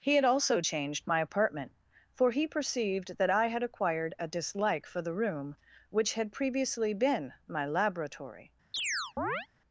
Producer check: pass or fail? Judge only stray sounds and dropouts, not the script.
fail